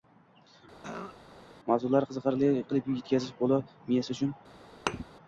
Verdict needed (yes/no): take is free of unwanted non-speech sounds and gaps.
no